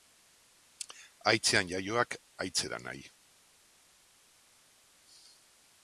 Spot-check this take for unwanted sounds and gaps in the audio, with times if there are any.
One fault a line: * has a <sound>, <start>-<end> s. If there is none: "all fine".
all fine